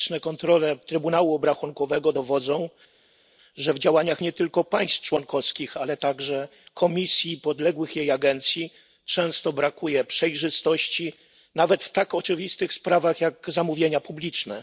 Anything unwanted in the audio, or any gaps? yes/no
no